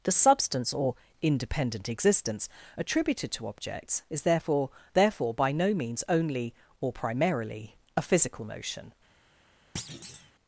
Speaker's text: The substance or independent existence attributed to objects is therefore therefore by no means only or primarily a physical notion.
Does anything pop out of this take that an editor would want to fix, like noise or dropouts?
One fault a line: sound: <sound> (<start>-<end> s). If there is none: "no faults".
sound: thud (9.8-10.3 s)